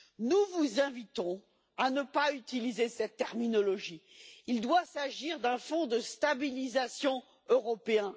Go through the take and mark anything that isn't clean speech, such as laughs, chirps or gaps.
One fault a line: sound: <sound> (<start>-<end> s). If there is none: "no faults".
no faults